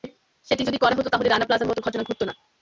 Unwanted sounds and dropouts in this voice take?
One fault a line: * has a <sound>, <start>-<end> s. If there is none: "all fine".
all fine